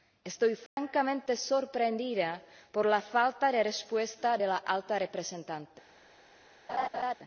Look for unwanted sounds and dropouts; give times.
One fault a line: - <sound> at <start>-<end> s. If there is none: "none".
- dropout at 0.7-0.8 s
- laugh at 6.7-7.1 s